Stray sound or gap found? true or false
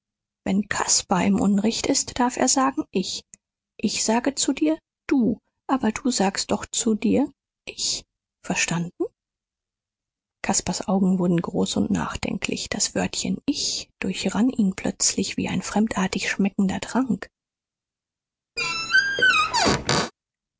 true